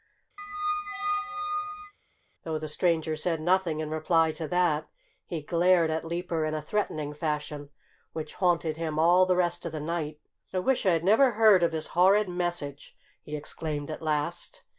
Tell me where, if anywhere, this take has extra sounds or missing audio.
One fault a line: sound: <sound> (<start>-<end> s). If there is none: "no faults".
sound: squeak (0.4-1.9 s)